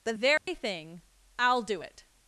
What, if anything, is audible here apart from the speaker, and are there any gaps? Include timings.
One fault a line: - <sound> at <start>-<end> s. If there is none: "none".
- dropout at 0.4-0.5 s